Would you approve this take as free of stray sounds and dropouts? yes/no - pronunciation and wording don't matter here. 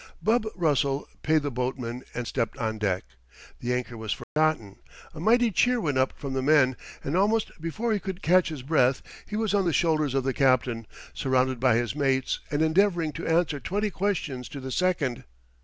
no